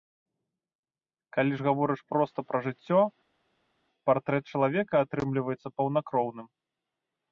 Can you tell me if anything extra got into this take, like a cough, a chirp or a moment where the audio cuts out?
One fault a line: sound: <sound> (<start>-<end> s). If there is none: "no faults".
no faults